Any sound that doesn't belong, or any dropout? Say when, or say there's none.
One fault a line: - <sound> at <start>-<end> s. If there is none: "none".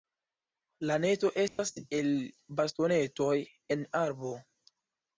- dropout at 1.5-1.6 s